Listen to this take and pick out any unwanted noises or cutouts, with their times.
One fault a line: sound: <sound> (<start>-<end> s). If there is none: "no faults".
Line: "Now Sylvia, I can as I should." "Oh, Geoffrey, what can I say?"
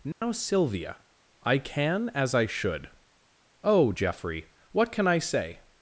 sound: dropout (0.1-0.2 s)